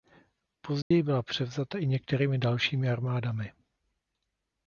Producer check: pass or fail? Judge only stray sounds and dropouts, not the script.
fail